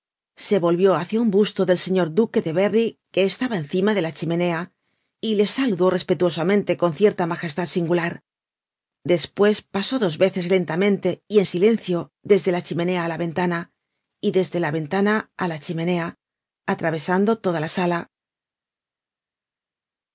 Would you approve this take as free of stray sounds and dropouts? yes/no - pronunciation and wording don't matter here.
yes